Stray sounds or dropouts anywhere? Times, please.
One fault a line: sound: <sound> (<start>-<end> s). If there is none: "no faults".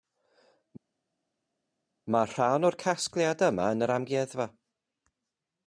no faults